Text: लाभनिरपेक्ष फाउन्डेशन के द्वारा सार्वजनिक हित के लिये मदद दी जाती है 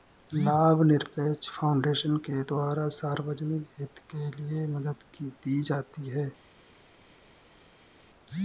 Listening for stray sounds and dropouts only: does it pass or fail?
pass